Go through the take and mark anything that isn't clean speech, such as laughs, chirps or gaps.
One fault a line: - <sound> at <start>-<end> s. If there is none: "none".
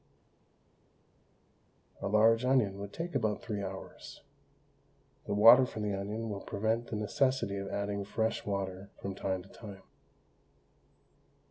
none